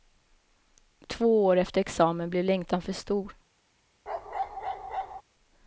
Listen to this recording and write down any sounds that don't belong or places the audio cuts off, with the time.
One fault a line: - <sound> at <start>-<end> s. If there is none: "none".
- bark at 4.1-5.2 s